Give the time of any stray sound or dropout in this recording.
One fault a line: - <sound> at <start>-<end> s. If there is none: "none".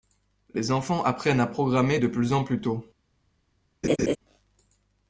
- laugh at 3.8-4.2 s